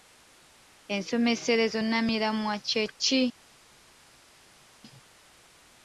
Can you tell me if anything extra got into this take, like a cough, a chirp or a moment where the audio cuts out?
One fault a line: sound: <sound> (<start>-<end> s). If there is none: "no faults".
no faults